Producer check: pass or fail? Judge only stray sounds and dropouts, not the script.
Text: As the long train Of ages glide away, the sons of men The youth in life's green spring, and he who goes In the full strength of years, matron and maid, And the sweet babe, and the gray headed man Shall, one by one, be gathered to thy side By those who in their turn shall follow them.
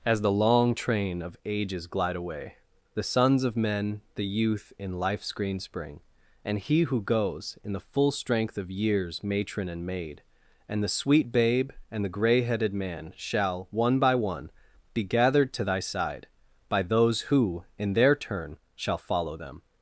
pass